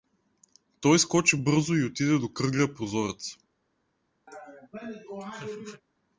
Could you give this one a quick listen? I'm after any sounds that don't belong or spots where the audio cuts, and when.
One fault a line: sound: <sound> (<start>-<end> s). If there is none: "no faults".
sound: laugh (4.3-5.8 s)